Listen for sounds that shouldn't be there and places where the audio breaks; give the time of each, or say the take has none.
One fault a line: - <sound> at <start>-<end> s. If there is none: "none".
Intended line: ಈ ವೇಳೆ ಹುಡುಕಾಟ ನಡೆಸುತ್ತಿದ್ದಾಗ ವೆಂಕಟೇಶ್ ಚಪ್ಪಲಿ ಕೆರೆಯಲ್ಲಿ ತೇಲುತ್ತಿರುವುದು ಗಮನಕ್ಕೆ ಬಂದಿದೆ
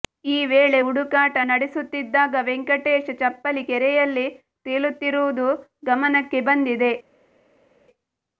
none